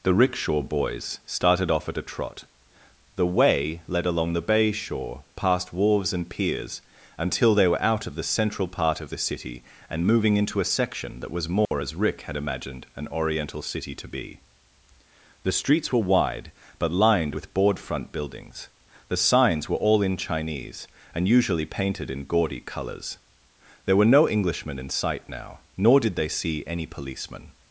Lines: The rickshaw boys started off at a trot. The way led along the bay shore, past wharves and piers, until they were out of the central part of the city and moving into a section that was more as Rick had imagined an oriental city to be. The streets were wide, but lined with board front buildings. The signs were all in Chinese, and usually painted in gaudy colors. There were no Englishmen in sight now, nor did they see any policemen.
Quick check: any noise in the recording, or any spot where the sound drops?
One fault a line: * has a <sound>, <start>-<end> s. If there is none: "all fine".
* has a dropout, 11.7-11.7 s